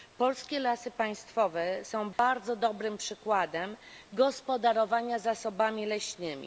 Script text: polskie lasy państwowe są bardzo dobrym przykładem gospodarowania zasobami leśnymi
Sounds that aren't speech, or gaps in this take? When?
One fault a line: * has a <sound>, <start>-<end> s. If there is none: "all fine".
* has a dropout, 2.1-2.2 s